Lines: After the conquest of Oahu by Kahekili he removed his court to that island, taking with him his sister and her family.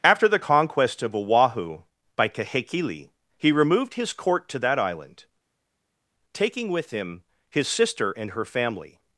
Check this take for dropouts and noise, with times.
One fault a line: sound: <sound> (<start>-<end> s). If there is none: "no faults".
no faults